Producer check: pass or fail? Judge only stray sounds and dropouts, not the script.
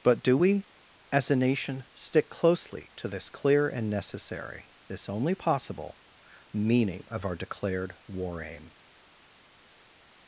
pass